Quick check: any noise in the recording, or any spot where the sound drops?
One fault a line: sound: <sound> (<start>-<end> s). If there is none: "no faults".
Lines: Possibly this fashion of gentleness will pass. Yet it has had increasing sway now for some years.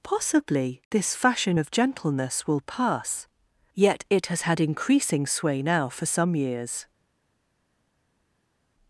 no faults